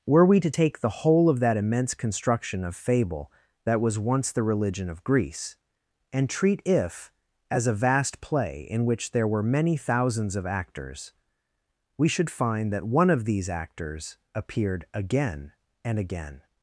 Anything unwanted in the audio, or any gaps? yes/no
no